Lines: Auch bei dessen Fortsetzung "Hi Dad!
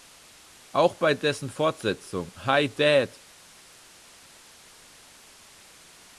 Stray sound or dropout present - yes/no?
no